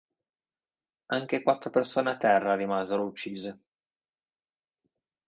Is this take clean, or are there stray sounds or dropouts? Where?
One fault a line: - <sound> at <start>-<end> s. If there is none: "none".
none